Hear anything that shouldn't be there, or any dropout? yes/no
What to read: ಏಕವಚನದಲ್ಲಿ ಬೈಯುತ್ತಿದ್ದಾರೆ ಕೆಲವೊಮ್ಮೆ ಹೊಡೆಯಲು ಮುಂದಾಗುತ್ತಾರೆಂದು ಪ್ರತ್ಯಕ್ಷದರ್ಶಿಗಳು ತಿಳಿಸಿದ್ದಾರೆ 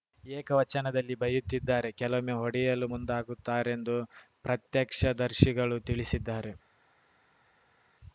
no